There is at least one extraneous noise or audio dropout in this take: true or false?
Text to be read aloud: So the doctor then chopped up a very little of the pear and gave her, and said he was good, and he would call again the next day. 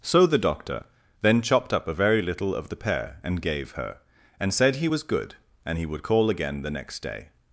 false